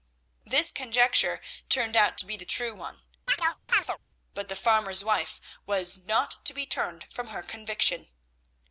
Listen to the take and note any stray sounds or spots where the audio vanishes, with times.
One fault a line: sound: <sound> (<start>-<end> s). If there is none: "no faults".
sound: chirp (3.3-4.0 s)